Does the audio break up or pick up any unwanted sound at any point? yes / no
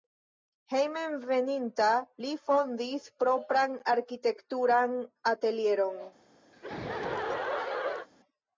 yes